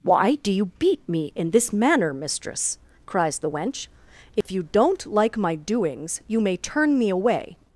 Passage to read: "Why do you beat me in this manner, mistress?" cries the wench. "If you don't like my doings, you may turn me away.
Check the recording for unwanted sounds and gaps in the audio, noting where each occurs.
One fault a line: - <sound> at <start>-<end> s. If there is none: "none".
- dropout at 4.4-4.5 s